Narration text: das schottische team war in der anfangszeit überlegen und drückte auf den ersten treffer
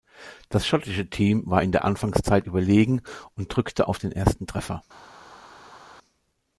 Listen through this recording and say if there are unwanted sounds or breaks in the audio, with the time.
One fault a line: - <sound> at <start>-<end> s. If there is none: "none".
none